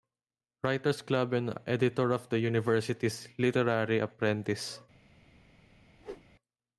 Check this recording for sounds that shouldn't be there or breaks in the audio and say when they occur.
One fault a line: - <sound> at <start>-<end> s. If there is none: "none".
- whoosh at 6.0-6.3 s